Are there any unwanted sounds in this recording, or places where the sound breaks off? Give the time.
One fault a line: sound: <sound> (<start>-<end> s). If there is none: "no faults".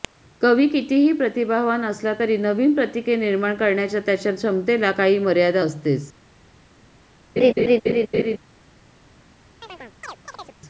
sound: laugh (7.4-8.4 s)
sound: chirp (9.6-10.6 s)